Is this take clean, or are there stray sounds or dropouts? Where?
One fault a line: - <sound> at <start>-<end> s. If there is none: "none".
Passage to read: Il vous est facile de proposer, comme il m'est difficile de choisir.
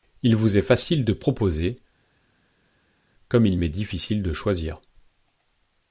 none